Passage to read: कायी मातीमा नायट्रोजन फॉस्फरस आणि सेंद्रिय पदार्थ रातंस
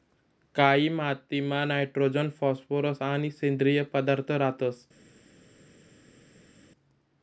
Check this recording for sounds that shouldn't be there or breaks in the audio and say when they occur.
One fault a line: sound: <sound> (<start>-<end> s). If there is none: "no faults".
no faults